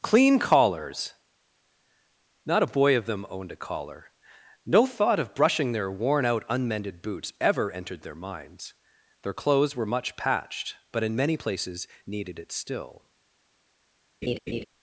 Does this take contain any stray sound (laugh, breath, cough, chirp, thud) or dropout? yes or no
yes